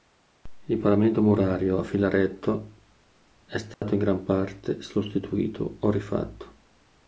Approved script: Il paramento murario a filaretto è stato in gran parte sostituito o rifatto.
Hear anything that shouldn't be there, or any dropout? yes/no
yes